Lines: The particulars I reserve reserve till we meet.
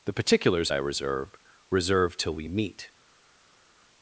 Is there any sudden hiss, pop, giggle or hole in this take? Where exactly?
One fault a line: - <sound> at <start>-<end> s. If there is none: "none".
none